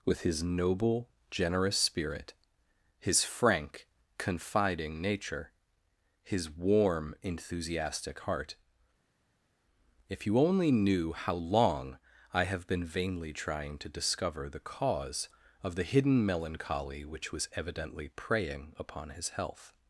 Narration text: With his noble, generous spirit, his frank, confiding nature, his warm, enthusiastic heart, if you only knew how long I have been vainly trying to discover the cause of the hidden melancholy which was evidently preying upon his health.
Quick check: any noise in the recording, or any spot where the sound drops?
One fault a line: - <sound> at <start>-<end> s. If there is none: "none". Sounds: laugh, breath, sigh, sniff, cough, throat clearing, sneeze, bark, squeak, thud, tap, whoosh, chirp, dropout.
none